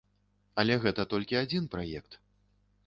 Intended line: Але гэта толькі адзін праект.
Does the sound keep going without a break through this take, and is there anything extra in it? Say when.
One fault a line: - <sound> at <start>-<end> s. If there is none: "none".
none